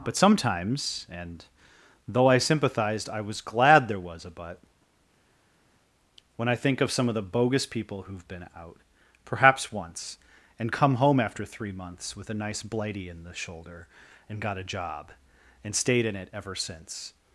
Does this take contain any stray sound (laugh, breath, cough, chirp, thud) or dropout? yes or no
no